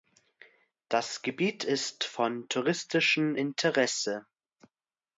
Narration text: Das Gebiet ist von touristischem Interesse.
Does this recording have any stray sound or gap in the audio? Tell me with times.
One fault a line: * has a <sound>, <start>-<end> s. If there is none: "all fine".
all fine